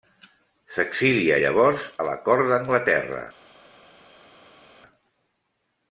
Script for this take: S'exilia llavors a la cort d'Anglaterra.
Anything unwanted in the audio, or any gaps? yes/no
no